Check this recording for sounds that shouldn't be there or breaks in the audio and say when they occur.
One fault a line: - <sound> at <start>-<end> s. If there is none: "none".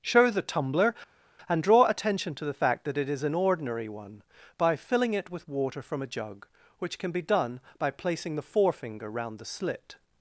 none